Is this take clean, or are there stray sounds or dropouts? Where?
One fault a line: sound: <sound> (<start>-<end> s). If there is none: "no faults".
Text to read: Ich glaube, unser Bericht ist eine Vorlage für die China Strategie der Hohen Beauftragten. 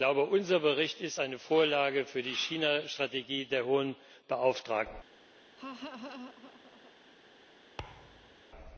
sound: laugh (5.6-6.9 s)
sound: thud (7.8-8.4 s)